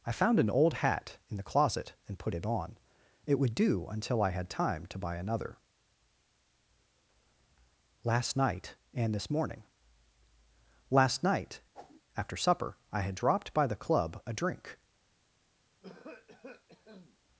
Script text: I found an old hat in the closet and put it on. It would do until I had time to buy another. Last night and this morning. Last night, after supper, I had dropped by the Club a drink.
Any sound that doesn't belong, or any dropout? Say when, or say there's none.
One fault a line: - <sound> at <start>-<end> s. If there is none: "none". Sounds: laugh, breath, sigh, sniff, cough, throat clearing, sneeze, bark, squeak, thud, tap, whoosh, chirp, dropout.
- whoosh at 11.7-12.0 s
- cough at 15.8-17.2 s